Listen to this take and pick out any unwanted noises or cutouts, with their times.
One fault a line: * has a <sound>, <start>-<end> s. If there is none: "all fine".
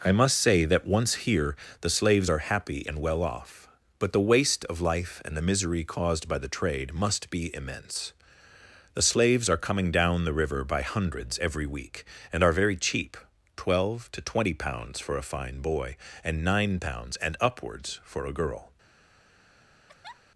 * has a laugh, 19.9-20.2 s